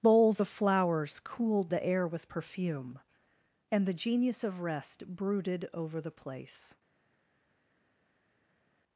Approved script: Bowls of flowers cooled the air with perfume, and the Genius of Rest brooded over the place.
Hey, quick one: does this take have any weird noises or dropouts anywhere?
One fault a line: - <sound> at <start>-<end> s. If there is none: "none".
none